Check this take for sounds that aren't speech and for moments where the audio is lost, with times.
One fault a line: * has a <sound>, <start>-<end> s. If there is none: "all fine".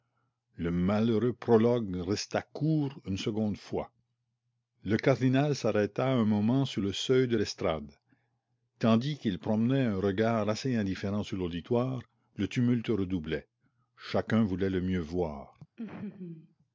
* has a laugh, 15.8-16.6 s